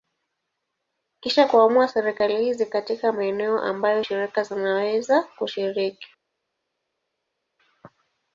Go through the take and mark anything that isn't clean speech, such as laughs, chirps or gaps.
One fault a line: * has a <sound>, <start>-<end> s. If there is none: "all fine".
all fine